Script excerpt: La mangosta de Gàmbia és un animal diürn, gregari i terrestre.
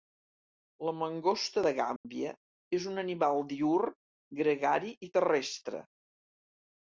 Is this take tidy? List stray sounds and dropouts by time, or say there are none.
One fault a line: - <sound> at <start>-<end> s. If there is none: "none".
- dropout at 2.0-2.0 s